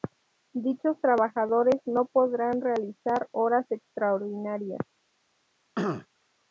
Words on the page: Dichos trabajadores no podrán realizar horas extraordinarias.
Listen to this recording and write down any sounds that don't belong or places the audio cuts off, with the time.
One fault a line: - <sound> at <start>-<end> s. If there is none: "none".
- throat clearing at 5.8-6.1 s